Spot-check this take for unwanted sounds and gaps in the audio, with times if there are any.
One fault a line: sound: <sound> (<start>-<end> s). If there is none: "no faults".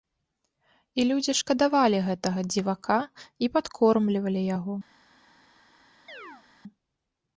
sound: chirp (6.1-6.4 s)